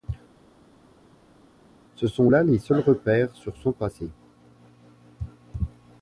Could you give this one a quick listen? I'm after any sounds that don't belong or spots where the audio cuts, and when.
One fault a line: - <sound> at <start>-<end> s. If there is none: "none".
none